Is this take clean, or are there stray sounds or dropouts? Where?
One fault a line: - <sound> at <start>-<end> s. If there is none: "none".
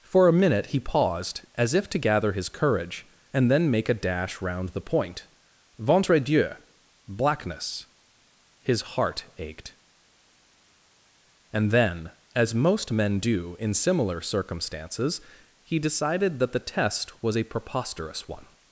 none